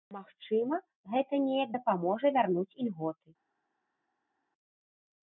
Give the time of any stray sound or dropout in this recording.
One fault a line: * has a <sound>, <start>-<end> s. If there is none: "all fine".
all fine